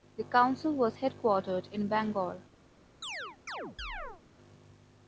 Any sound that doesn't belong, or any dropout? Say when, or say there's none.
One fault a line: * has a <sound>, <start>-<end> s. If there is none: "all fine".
* has a chirp, 3.0-4.2 s